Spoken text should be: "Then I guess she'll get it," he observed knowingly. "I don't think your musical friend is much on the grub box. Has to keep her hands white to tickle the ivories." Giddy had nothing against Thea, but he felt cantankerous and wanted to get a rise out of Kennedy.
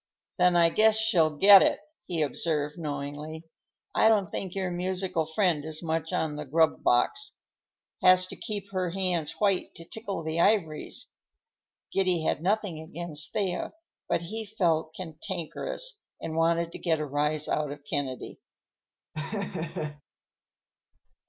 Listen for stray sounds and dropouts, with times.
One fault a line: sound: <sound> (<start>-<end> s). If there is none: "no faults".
sound: laugh (19.1-20.0 s)